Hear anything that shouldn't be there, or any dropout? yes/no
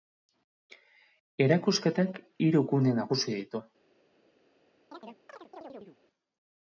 yes